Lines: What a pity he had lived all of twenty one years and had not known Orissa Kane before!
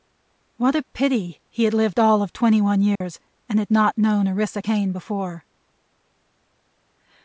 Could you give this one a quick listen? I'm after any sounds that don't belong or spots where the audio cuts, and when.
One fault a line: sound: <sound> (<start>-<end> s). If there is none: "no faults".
sound: dropout (3.0-3.0 s)